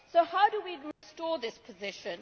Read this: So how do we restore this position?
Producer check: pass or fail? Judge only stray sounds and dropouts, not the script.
fail